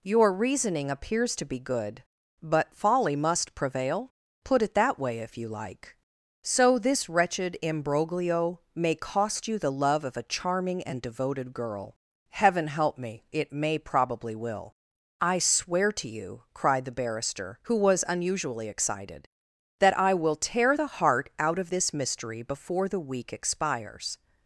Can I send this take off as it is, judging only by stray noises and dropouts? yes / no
yes